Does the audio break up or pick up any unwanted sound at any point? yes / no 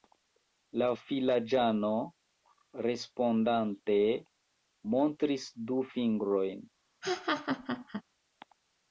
yes